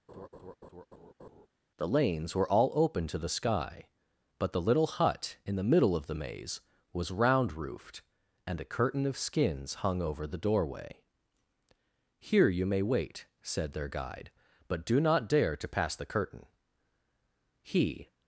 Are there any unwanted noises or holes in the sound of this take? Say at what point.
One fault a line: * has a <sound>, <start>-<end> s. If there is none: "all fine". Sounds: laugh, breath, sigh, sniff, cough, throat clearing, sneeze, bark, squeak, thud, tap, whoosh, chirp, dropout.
* has a laugh, 0.1-1.5 s